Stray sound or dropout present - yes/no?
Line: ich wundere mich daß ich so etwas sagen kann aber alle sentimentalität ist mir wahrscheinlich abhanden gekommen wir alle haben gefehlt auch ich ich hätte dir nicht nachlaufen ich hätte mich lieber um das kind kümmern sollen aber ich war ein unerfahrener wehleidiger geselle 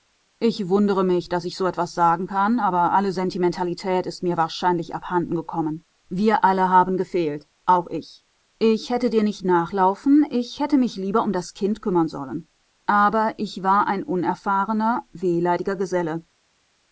no